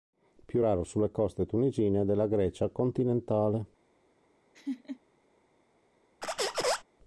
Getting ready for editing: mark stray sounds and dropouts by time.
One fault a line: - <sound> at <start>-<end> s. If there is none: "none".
- laugh at 4.5-5.0 s
- squeak at 6.2-6.8 s